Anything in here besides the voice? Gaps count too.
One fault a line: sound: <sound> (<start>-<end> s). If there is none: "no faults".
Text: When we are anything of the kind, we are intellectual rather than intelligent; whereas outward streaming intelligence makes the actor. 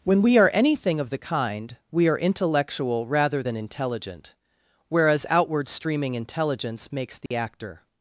sound: dropout (7.3-7.3 s)